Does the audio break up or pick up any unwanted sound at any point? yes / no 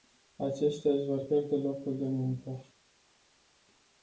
no